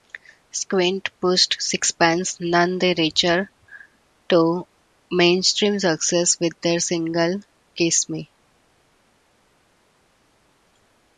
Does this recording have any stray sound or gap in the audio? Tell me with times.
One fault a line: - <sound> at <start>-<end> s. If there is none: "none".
none